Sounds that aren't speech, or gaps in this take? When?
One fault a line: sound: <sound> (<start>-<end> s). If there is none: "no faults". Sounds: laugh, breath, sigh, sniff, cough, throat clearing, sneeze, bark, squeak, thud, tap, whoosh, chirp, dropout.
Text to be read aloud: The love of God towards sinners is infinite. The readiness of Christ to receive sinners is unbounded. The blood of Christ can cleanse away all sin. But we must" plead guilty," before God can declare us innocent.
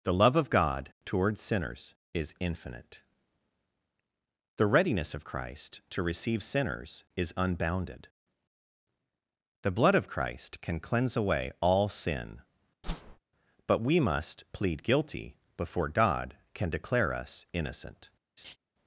sound: whoosh (12.8-13.2 s)
sound: laugh (18.4-18.6 s)